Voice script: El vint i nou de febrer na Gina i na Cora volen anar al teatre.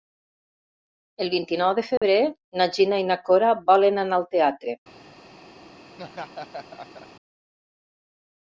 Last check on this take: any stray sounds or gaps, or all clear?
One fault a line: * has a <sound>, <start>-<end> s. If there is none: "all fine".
* has a dropout, 2.0-2.0 s
* has a laugh, 5.9-7.1 s